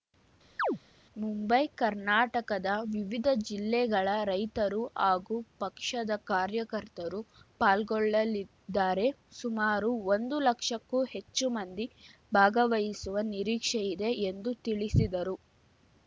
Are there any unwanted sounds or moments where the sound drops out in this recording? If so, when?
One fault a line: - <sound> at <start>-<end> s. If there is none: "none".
- chirp at 0.6-0.8 s